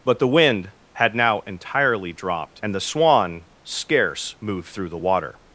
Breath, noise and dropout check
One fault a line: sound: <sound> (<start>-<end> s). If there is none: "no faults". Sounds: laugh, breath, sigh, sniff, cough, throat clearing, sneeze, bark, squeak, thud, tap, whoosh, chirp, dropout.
no faults